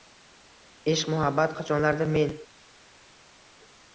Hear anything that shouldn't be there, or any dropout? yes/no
no